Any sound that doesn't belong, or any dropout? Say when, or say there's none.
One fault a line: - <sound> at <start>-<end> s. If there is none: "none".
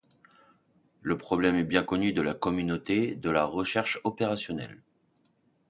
none